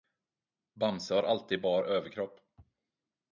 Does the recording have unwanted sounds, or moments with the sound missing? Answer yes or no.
no